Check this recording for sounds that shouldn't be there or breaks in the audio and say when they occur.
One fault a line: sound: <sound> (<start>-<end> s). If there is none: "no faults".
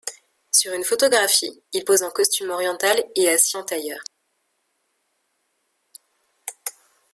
no faults